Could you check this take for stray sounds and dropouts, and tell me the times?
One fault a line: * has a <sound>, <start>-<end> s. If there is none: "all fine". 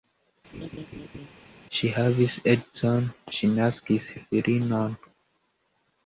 * has a laugh, 0.5-1.3 s